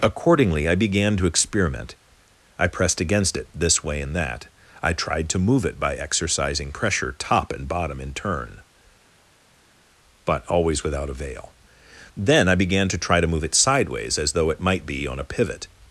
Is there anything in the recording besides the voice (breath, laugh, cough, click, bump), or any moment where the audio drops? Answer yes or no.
no